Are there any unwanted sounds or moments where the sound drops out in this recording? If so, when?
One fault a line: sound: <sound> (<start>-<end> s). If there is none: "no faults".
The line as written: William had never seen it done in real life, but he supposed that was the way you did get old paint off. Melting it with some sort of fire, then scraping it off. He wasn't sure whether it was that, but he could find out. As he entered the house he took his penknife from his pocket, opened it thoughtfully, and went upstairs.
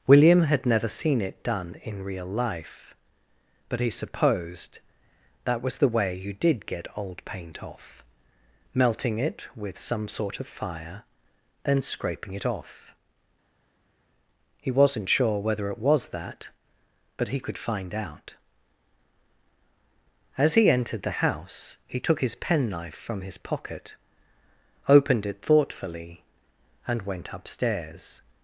no faults